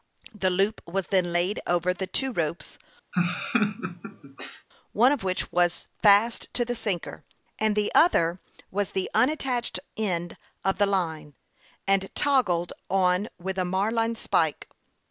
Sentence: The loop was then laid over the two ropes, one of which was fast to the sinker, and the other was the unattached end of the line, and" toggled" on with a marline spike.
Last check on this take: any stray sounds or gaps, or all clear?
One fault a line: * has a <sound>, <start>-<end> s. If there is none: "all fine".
* has a laugh, 3.1-4.7 s